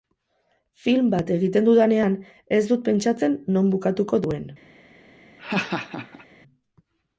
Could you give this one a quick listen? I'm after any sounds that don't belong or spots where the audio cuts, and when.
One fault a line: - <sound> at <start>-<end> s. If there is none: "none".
- laugh at 5.4-6.3 s